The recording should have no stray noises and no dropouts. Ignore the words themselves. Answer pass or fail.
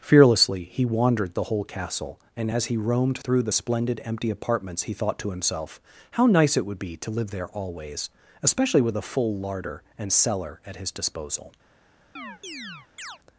fail